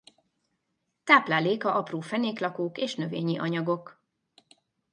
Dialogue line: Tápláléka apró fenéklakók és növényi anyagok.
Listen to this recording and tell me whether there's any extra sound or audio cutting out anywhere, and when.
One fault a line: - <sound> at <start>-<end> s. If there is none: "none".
none